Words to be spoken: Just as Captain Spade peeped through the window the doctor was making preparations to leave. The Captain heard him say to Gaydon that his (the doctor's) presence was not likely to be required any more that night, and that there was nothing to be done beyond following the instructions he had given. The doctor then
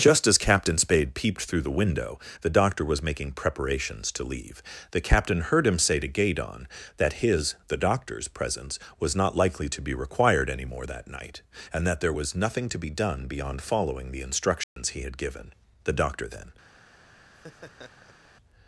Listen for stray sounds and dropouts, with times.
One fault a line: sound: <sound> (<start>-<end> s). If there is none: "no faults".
sound: dropout (14.6-14.8 s)
sound: laugh (17.3-18.3 s)